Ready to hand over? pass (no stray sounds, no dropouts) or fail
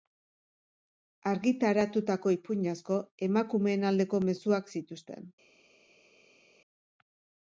pass